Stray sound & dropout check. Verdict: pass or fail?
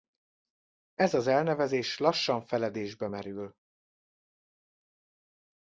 pass